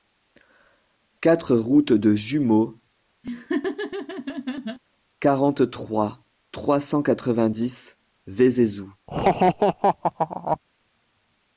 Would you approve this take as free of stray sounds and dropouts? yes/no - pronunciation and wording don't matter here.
no